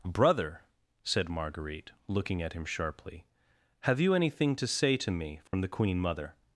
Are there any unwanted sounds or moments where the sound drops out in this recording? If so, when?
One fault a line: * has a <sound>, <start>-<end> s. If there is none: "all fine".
* has a dropout, 5.5-5.5 s